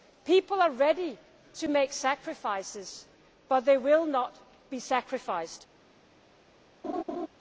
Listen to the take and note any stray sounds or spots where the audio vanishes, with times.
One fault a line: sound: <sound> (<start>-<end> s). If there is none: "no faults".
sound: laugh (6.8-7.3 s)